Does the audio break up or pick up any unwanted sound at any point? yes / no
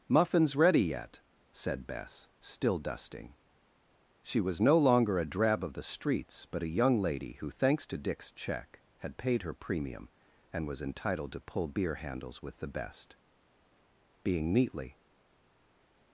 no